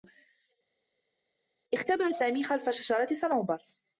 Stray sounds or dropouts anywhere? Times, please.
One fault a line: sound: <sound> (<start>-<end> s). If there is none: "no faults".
no faults